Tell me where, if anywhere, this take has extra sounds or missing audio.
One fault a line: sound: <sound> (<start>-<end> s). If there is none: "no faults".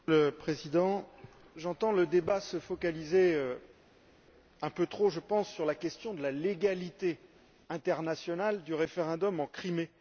no faults